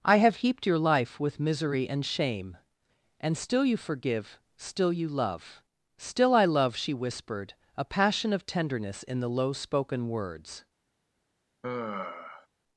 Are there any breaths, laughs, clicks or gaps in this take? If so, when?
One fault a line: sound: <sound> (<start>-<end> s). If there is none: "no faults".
sound: sigh (11.6-12.5 s)